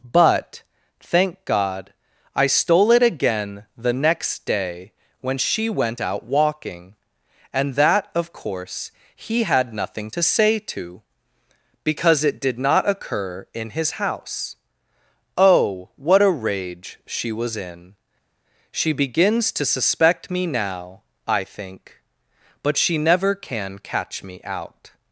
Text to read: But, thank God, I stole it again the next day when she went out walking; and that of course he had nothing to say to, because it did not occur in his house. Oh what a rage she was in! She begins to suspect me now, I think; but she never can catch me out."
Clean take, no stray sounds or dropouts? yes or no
yes